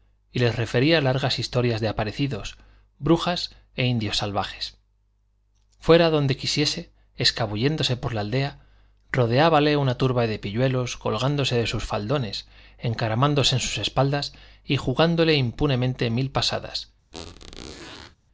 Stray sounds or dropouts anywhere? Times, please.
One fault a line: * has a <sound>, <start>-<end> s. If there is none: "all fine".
* has a squeak, 17.1-18.2 s